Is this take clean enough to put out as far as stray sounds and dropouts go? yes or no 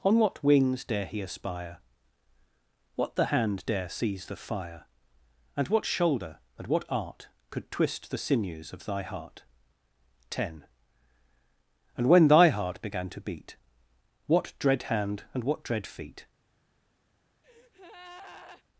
no